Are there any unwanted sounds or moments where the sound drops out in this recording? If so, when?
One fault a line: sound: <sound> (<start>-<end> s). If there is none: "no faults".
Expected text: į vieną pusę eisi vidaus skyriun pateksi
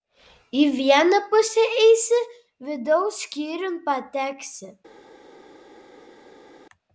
no faults